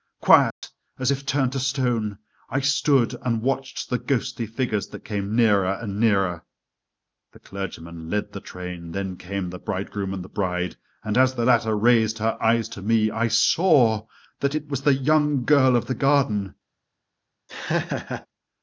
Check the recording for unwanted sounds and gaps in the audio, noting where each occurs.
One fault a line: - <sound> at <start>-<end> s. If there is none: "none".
- dropout at 0.5-0.6 s
- laugh at 17.5-18.3 s